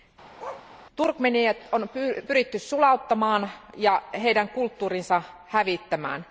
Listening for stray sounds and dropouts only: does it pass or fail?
fail